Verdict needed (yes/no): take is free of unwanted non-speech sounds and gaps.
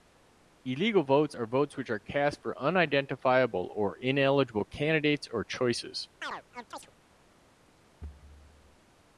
no